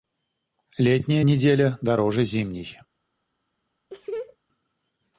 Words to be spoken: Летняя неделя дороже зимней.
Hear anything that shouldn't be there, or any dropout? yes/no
yes